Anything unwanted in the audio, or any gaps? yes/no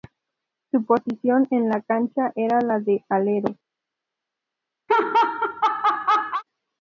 yes